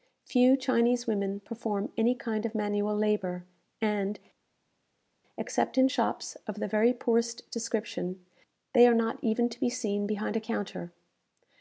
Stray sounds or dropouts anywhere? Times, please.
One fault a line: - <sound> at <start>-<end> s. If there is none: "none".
none